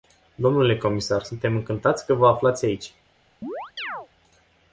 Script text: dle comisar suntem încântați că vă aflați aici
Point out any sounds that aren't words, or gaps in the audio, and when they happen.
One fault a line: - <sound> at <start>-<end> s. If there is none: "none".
- chirp at 3.4-4.1 s